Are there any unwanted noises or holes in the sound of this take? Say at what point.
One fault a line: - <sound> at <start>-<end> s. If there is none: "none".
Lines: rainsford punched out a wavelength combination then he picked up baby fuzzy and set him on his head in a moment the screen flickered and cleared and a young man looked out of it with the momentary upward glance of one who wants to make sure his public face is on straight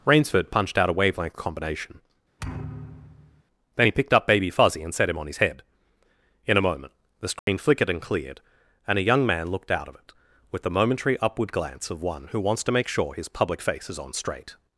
- thud at 2.4-3.4 s
- dropout at 7.4-7.5 s